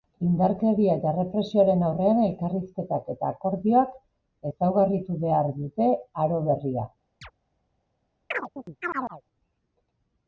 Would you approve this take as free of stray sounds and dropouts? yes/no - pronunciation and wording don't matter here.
no